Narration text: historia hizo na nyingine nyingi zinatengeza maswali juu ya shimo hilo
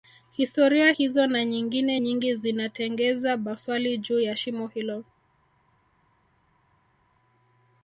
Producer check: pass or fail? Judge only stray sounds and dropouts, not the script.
pass